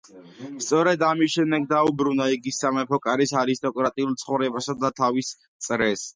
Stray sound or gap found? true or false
false